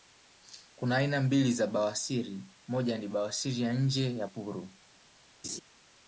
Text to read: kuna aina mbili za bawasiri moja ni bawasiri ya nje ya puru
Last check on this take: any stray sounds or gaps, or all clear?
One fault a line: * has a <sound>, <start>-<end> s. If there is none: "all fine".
* has a laugh, 5.4-5.6 s